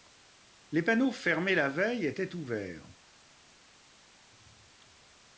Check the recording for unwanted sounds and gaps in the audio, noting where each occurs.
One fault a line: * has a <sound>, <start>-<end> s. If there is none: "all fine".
all fine